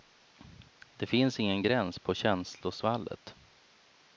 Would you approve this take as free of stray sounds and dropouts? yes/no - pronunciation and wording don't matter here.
yes